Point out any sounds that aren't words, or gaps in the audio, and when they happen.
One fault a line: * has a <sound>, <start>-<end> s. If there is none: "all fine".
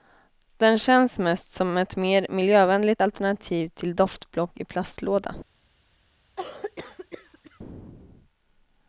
* has a cough, 6.4-7.6 s